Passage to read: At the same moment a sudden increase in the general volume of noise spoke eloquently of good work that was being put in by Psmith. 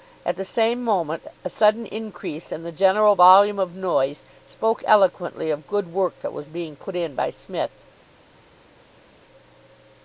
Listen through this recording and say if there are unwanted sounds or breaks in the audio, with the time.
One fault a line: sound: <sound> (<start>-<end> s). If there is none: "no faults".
no faults